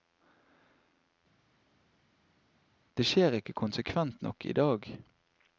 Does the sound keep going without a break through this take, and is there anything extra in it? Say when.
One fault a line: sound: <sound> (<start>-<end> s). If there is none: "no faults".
no faults